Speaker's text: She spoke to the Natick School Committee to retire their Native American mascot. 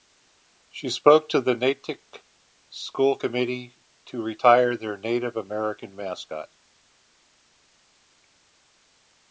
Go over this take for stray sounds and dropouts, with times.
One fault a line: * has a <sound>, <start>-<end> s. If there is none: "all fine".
all fine